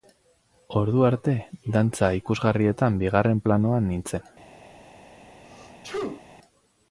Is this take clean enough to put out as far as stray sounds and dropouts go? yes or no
no